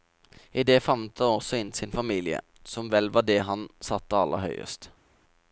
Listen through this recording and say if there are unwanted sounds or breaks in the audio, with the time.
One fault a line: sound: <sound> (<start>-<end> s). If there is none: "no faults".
no faults